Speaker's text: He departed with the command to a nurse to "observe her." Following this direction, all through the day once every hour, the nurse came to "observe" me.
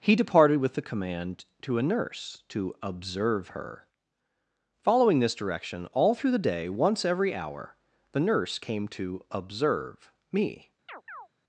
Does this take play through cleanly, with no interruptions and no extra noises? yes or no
no